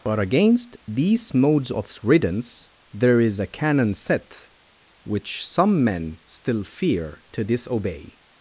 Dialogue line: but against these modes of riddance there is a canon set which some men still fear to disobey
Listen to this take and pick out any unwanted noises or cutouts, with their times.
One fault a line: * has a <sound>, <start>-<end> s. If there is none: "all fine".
all fine